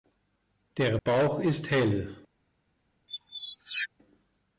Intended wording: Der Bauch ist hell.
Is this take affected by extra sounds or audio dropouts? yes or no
yes